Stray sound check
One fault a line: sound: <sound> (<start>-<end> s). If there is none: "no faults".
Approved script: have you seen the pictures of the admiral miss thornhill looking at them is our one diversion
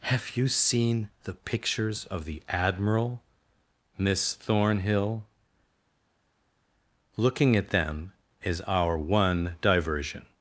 no faults